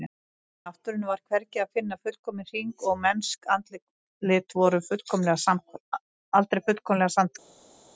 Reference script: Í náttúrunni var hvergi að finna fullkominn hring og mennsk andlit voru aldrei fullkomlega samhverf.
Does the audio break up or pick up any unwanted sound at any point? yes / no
no